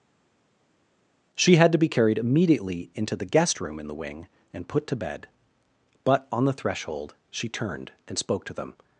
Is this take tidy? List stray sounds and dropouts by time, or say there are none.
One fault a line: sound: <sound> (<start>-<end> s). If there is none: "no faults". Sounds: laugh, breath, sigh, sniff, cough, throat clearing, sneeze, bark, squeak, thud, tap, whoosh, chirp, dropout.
no faults